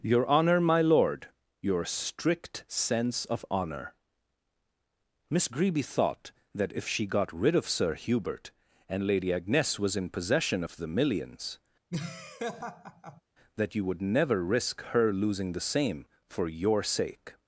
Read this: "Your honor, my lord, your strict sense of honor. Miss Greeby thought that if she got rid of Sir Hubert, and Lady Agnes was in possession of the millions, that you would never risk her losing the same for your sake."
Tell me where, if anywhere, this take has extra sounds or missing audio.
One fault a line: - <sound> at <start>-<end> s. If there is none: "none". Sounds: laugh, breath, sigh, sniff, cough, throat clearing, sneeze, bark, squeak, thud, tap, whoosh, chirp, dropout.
- laugh at 11.9-13.2 s